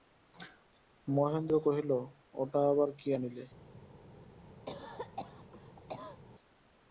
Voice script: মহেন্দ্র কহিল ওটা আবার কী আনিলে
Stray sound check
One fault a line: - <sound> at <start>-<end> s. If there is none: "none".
- cough at 4.7-6.2 s